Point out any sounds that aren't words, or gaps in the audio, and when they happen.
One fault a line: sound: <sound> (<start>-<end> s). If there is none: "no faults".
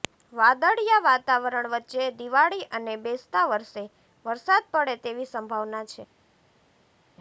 no faults